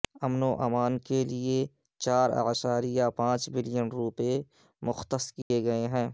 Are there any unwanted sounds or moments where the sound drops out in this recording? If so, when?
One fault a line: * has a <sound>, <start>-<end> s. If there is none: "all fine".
* has a dropout, 5.4-5.5 s